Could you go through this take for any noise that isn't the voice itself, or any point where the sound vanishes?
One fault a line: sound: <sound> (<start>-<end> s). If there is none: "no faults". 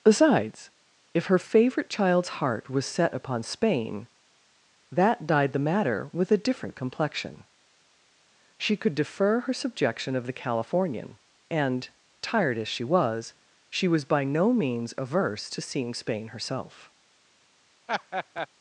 sound: laugh (17.9-18.5 s)